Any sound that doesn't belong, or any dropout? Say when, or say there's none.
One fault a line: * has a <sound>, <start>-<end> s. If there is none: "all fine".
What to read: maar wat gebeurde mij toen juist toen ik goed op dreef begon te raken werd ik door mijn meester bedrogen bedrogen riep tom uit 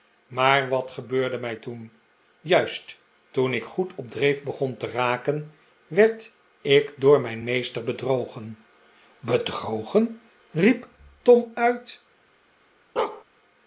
* has a bark, 13.0-13.2 s